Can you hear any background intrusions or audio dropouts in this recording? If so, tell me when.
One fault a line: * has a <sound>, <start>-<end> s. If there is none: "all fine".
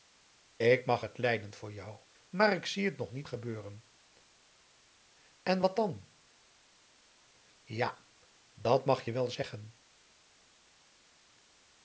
all fine